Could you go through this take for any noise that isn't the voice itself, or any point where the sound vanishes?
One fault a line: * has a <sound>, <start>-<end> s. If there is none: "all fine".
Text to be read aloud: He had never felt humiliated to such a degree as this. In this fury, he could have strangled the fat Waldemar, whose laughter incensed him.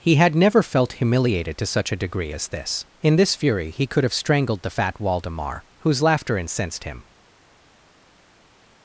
all fine